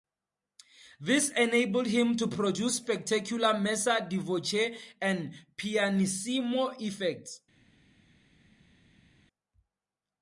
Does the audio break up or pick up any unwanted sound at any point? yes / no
no